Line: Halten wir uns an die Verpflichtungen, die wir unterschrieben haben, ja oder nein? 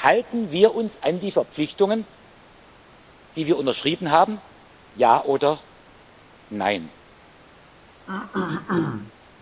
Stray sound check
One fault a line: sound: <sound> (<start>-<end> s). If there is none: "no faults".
sound: throat clearing (8.1-9.1 s)